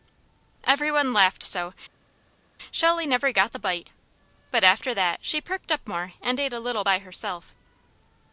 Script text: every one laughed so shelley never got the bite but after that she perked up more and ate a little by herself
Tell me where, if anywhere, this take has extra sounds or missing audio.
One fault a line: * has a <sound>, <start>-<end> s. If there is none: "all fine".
all fine